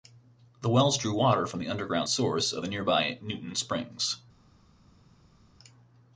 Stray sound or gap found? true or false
false